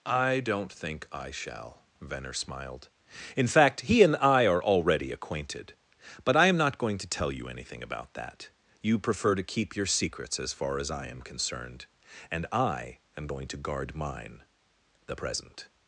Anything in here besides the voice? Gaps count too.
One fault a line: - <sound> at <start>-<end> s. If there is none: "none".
none